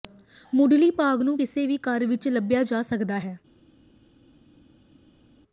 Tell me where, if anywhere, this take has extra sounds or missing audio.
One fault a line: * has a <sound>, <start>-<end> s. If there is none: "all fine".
all fine